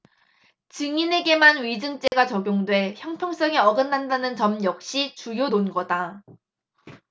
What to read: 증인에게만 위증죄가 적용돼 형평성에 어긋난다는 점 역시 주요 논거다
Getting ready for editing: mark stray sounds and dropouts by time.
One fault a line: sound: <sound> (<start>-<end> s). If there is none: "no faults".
sound: dropout (2.1-2.1 s)